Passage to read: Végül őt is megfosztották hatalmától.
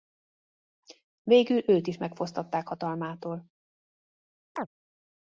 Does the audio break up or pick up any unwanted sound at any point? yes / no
yes